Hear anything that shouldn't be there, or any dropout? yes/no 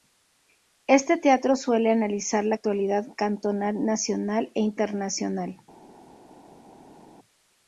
no